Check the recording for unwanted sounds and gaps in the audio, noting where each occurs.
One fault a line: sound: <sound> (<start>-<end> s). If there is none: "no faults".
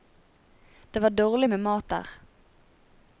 no faults